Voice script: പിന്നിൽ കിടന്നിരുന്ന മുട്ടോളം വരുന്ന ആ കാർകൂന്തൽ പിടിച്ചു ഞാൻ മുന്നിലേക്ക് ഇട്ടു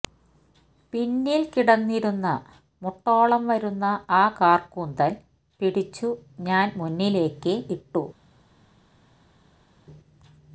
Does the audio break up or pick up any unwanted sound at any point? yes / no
no